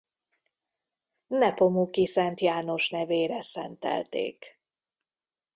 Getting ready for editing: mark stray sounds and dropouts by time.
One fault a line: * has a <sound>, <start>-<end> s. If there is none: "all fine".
all fine